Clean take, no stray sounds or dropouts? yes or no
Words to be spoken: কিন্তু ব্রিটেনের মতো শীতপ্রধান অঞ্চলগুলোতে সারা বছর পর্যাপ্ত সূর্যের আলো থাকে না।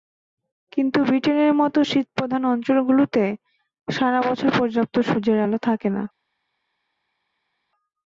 yes